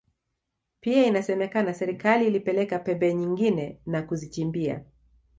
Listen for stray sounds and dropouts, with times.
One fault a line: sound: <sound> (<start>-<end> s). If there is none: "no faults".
no faults